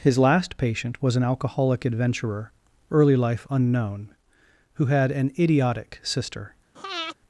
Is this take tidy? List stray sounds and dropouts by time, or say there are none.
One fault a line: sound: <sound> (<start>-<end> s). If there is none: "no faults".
sound: breath (6.8-7.2 s)